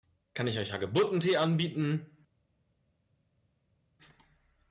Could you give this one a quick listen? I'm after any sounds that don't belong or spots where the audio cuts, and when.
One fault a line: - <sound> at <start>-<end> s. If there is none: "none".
none